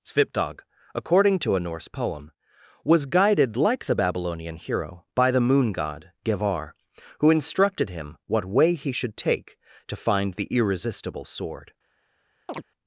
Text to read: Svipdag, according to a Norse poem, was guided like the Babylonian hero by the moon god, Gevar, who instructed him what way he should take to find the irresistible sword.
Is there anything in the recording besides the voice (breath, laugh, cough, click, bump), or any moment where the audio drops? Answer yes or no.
yes